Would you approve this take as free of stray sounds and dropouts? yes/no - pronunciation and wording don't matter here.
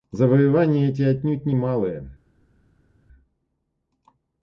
yes